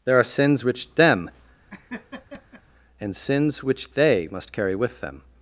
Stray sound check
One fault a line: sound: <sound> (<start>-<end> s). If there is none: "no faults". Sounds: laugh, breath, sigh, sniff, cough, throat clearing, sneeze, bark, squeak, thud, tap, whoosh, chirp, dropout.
sound: laugh (1.7-2.6 s)